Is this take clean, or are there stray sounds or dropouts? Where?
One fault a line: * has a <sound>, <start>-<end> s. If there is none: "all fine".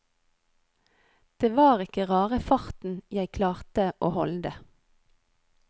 all fine